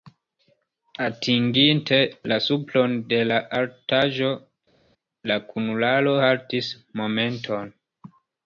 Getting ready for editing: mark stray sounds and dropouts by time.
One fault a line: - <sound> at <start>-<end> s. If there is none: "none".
none